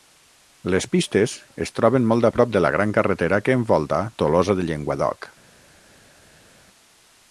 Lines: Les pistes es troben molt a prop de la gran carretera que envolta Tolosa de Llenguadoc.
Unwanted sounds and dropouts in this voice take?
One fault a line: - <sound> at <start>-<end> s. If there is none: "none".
none